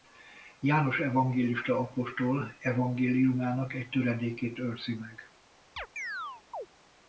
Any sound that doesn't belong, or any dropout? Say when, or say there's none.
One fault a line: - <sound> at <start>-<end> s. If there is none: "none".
- chirp at 5.8-6.7 s